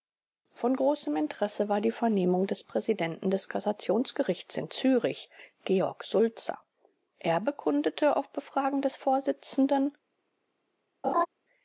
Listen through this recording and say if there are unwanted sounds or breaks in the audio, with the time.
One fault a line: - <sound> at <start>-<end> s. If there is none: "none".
- laugh at 11.0-11.3 s